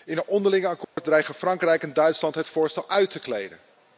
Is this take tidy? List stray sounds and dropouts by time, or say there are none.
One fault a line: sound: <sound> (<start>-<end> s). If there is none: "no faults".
sound: dropout (0.8-1.0 s)